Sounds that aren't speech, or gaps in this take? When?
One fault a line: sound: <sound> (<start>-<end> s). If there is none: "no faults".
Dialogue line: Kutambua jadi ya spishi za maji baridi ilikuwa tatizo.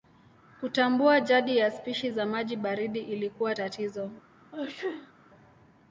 sound: sneeze (4.5-5.1 s)